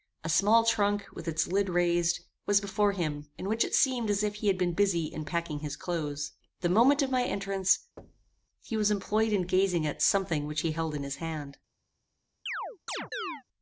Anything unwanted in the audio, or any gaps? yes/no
yes